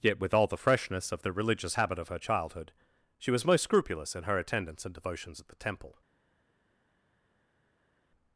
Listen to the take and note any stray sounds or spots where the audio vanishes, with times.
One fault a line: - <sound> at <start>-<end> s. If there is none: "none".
none